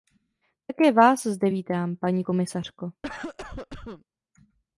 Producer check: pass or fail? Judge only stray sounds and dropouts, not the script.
fail